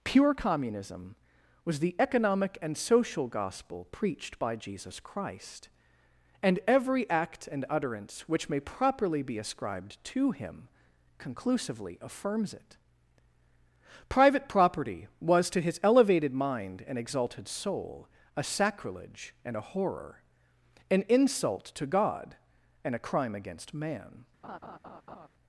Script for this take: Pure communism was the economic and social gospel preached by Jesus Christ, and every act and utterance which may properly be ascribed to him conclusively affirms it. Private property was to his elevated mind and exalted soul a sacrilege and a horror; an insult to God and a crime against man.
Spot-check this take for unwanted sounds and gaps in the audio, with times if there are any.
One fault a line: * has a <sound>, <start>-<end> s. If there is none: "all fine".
* has a laugh, 24.4-25.3 s